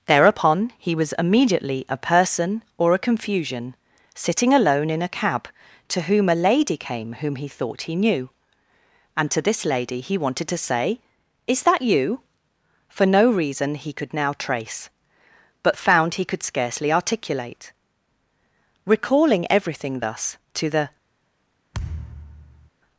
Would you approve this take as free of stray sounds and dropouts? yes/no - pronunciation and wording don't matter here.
no